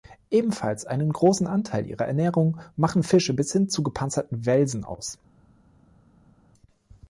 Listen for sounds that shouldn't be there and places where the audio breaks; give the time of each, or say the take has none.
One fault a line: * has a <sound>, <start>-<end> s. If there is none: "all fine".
all fine